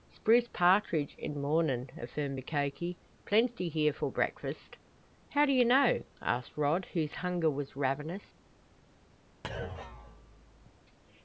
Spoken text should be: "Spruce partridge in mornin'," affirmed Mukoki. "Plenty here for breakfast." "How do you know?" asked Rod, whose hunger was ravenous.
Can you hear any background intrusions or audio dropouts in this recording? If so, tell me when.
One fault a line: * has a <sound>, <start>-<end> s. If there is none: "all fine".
* has a thud, 9.4-10.8 s